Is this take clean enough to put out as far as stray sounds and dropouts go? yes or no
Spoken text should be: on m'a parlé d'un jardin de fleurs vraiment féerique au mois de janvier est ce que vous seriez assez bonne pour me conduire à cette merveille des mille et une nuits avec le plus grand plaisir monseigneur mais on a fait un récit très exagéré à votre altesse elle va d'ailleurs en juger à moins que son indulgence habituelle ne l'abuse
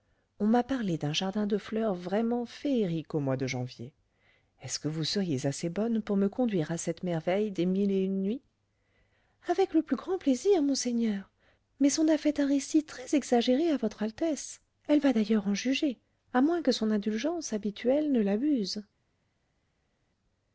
yes